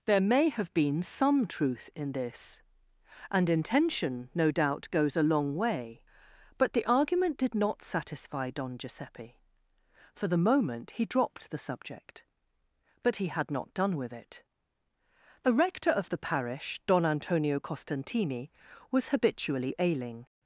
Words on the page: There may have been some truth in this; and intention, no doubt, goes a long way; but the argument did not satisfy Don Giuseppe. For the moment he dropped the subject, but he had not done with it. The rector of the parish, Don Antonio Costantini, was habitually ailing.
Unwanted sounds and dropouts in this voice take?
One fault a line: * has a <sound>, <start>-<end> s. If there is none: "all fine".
all fine